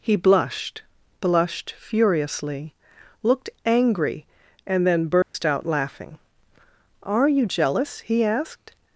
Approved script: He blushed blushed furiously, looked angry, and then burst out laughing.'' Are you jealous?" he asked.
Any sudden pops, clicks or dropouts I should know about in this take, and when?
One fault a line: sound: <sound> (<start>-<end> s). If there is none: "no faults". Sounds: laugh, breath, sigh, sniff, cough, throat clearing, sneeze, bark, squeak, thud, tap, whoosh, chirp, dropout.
sound: dropout (5.2-5.3 s)